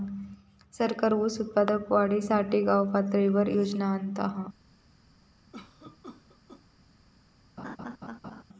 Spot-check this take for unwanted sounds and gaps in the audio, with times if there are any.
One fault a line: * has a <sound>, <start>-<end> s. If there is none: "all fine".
* has a cough, 5.5-6.7 s
* has a laugh, 7.6-8.4 s